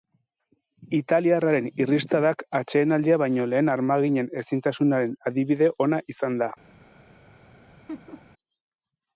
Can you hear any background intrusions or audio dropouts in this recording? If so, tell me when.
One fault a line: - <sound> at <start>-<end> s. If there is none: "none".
- laugh at 7.9-8.3 s